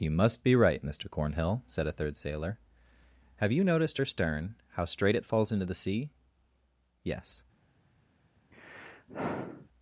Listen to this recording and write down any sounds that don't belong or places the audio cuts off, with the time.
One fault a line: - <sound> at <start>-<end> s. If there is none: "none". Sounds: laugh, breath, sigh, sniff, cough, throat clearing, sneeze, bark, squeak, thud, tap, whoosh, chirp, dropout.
- sigh at 8.5-9.7 s